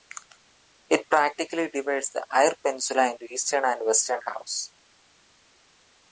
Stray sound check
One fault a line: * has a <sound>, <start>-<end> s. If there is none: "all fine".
all fine